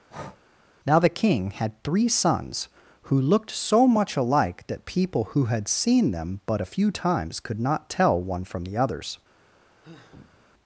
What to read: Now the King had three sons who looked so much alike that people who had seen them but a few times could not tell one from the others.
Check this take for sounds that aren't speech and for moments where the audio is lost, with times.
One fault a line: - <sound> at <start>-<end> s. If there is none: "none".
- breath at 0.1-0.4 s
- sigh at 9.8-10.5 s